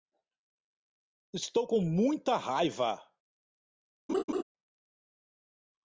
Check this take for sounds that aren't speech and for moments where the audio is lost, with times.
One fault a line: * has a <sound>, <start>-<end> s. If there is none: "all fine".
* has a laugh, 4.1-4.4 s